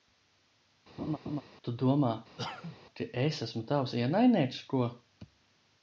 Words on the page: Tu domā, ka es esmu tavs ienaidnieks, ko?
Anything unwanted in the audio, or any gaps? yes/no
yes